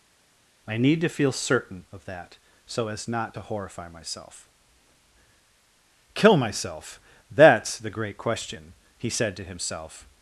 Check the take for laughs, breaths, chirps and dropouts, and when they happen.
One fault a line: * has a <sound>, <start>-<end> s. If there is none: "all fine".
all fine